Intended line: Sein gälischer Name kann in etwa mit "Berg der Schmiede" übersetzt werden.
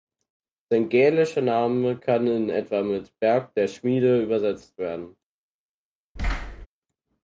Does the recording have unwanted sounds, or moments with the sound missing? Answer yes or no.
yes